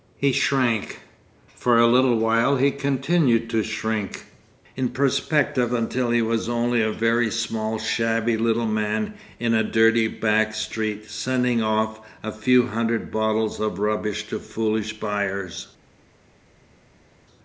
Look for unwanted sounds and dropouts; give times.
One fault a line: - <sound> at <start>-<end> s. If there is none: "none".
none